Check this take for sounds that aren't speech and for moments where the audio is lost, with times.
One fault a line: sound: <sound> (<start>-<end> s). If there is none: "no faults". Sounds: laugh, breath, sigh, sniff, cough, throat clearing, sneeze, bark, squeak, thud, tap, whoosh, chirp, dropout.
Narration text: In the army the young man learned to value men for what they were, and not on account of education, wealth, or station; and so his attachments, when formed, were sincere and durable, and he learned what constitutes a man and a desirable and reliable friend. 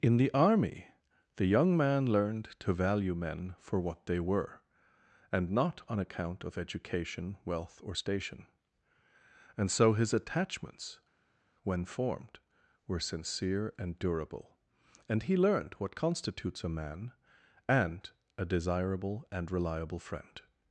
no faults